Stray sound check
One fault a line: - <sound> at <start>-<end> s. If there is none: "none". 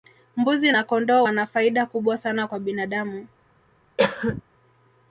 - cough at 4.0-4.4 s